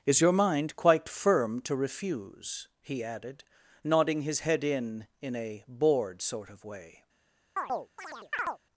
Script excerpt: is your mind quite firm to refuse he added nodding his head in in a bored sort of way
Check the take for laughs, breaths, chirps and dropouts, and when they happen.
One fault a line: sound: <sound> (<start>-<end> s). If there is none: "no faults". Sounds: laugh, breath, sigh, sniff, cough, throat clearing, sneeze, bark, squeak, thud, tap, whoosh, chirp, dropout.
sound: chirp (7.6-8.6 s)